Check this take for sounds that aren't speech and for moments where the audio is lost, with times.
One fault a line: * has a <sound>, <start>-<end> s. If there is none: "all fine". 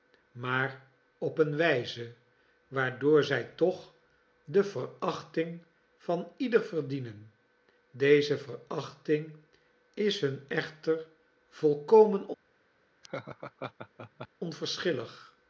* has a laugh, 13.0-14.3 s